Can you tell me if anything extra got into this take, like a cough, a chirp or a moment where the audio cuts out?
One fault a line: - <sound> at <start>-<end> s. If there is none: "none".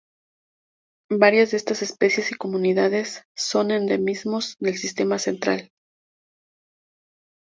none